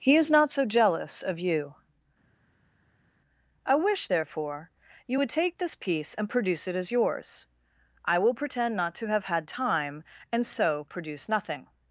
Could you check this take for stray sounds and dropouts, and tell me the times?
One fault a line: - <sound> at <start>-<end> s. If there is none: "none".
none